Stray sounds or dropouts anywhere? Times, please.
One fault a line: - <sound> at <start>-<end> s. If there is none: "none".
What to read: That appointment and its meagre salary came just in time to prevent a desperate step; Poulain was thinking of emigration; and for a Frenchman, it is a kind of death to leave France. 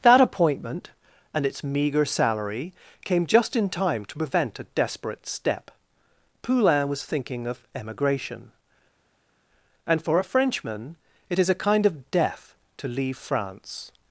none